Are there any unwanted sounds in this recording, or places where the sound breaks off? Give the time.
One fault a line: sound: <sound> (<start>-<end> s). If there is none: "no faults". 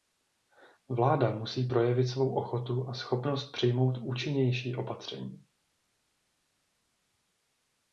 no faults